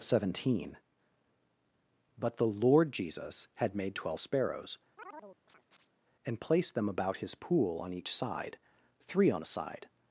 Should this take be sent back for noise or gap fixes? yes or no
yes